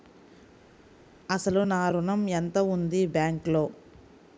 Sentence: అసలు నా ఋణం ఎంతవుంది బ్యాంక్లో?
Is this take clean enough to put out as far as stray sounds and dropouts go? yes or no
yes